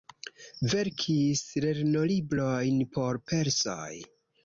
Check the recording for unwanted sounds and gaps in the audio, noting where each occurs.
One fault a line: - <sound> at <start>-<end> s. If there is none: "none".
none